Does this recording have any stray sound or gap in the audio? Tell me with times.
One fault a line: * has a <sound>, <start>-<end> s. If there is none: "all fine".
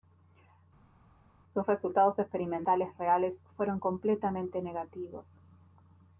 all fine